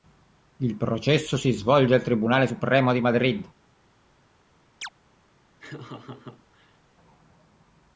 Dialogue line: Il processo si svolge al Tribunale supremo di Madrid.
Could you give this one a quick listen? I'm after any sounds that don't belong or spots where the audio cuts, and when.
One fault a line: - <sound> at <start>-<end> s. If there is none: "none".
- chirp at 4.8-4.9 s
- laugh at 5.6-6.8 s